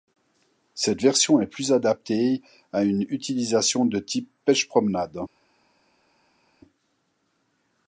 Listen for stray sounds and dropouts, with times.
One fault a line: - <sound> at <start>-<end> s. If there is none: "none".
none